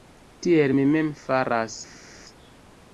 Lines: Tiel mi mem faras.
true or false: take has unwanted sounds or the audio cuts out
false